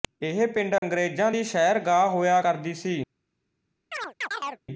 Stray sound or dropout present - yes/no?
yes